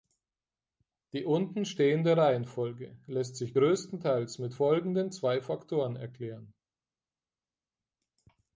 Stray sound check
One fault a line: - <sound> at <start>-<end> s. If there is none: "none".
none